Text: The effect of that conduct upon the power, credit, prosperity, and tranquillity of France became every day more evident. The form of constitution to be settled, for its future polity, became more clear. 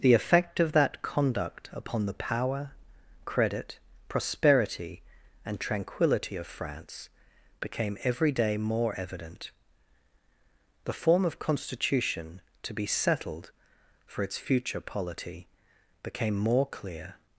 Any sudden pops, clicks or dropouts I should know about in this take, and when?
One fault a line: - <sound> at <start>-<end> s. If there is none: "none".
none